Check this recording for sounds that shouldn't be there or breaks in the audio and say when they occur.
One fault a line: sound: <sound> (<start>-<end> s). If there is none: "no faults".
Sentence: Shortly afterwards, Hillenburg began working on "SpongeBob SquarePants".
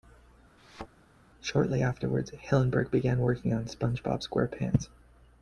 sound: thud (0.6-0.9 s)